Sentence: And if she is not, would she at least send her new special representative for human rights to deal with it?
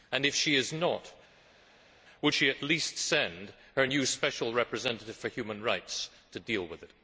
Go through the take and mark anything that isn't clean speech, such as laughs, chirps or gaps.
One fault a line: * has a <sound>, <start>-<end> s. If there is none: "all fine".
all fine